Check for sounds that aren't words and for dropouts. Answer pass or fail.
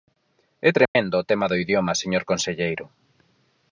fail